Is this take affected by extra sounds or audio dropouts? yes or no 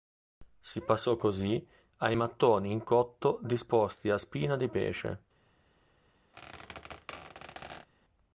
yes